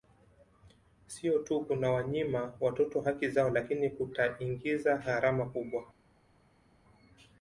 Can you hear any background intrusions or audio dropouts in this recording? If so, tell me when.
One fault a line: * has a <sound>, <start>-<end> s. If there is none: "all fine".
all fine